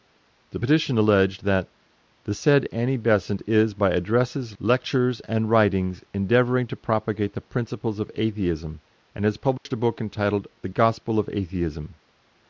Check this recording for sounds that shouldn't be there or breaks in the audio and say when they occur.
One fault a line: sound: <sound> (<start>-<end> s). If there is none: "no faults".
sound: dropout (9.6-9.7 s)